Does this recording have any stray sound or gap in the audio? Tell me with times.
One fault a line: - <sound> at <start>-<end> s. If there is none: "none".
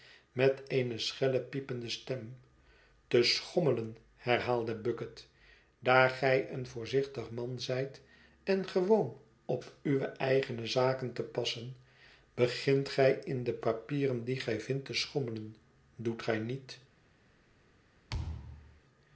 - thud at 18.1-18.8 s